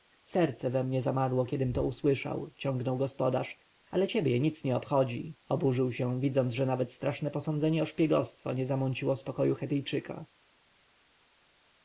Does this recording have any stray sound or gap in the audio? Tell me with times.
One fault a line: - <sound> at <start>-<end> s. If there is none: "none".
none